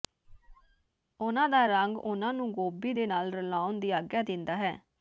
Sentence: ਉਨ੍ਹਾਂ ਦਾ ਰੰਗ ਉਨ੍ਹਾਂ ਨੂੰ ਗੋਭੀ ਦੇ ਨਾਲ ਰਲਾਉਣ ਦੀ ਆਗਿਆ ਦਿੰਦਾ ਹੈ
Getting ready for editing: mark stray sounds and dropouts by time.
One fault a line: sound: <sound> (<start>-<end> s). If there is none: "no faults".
sound: squeak (0.2-0.9 s)